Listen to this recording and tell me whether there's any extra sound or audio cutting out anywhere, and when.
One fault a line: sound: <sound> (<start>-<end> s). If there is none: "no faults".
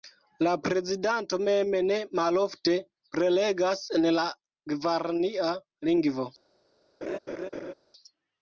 sound: laugh (7.0-7.7 s)